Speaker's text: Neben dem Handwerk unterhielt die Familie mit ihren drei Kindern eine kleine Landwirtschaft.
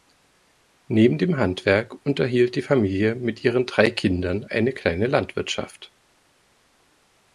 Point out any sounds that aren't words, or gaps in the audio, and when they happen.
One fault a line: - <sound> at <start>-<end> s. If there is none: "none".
none